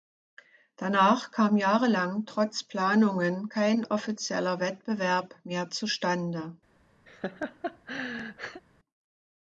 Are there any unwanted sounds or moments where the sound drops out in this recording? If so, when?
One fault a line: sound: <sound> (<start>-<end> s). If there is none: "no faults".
sound: laugh (7.1-8.6 s)